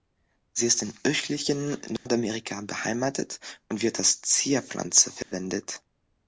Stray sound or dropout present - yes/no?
yes